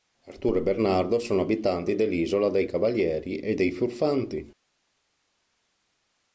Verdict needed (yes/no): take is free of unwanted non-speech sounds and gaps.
yes